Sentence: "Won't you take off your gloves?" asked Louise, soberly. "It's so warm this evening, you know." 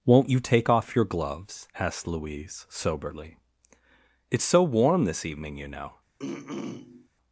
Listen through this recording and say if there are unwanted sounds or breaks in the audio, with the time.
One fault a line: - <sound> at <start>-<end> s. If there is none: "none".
- throat clearing at 6.2-7.1 s